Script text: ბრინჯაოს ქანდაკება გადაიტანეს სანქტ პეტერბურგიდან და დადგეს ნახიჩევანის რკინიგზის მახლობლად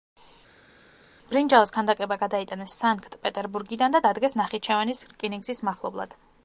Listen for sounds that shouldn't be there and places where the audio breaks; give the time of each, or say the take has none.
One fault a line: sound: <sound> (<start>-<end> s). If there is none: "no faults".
no faults